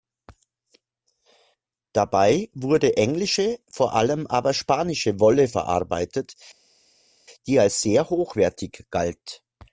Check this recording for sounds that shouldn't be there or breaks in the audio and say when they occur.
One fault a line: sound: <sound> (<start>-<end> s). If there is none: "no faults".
no faults